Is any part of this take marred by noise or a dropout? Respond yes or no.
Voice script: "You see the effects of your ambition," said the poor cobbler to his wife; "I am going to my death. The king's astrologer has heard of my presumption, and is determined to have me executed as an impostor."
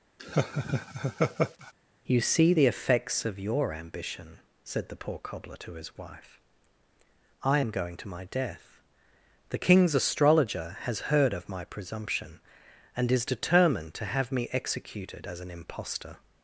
yes